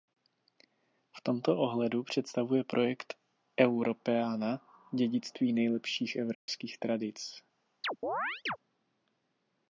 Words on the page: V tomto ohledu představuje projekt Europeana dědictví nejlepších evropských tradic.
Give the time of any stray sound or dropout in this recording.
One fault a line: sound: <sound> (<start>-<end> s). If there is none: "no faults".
sound: dropout (6.3-6.5 s)
sound: chirp (7.8-8.6 s)